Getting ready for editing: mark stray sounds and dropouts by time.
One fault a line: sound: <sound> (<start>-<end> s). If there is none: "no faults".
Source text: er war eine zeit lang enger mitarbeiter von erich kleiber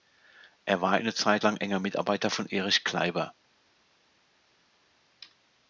no faults